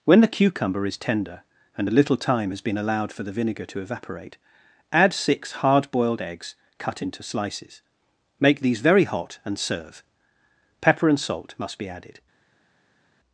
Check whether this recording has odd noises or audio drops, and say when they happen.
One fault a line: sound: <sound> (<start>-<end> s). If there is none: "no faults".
no faults